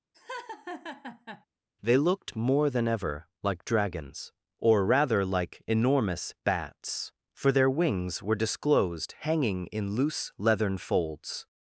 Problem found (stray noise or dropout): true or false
true